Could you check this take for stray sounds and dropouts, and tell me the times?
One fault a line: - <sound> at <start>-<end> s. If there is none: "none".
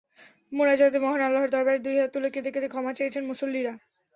none